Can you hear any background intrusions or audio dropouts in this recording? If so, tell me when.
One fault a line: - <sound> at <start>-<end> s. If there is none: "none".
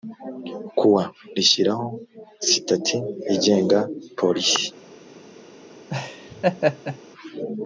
- laugh at 5.9-7.0 s